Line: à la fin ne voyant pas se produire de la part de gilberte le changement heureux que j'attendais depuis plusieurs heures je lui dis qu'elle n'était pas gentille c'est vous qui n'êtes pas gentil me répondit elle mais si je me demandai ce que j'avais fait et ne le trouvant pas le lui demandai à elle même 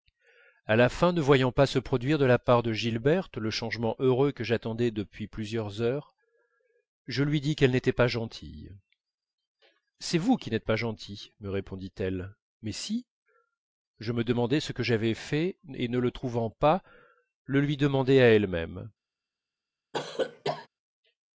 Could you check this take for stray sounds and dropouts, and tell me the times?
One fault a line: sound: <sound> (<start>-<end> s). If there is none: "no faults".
sound: cough (19.9-20.7 s)